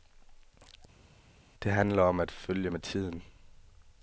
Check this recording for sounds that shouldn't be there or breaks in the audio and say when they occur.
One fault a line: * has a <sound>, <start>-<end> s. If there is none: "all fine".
all fine